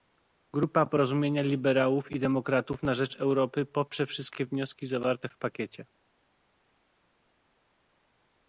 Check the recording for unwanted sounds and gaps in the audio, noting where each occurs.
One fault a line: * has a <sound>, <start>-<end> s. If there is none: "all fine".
all fine